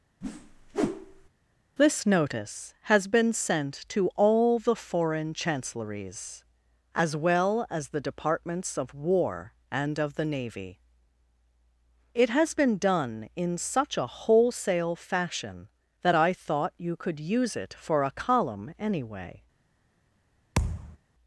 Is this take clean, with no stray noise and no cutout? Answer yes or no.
no